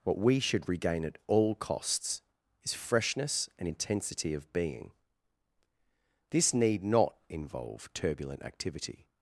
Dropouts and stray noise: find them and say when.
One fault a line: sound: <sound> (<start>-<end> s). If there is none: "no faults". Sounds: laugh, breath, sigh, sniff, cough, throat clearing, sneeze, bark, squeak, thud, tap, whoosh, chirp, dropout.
no faults